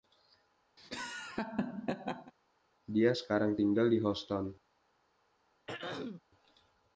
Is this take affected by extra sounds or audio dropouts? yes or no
yes